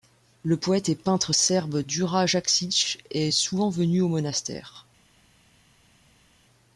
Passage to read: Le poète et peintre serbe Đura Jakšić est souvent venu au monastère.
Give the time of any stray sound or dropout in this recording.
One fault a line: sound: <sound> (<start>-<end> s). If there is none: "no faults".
no faults